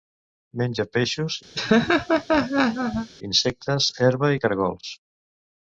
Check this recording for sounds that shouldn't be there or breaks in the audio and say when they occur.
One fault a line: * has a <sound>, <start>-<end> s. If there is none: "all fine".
* has a laugh, 1.5-3.1 s